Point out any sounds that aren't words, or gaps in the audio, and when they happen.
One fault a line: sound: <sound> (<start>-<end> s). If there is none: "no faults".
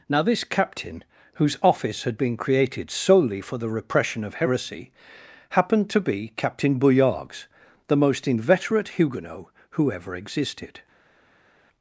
no faults